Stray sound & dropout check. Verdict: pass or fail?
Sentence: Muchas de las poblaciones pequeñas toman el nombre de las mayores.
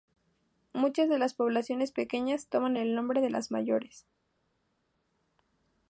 pass